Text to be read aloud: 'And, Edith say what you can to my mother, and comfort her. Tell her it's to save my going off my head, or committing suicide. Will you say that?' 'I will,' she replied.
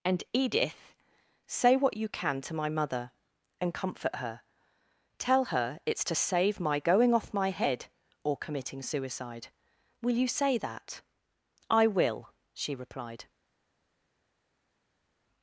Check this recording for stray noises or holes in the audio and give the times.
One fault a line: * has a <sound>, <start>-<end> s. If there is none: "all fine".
all fine